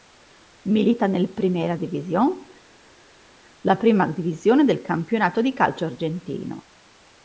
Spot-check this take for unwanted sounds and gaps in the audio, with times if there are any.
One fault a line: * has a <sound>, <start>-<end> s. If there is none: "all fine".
all fine